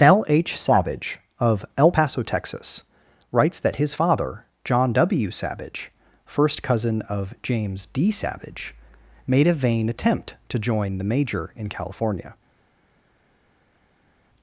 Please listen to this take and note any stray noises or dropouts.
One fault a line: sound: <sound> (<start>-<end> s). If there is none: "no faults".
no faults